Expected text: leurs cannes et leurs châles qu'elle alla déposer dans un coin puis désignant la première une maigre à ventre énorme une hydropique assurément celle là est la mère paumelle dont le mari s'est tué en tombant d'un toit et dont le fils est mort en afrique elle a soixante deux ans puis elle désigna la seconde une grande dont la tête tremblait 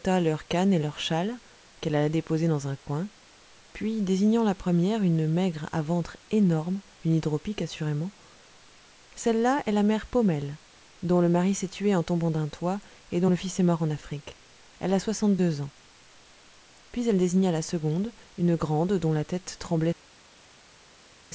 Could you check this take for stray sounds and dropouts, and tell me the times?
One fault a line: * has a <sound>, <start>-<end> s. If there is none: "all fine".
all fine